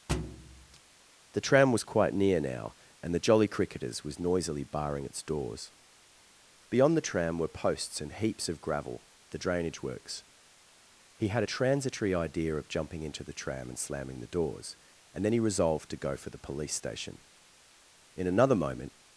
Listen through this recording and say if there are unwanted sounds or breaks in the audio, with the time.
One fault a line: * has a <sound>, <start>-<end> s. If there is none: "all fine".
* has a thud, 0.1-0.8 s